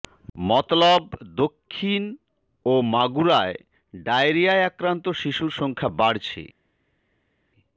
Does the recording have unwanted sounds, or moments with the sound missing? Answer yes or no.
no